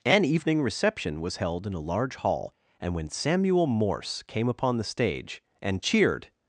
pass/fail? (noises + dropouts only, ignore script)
pass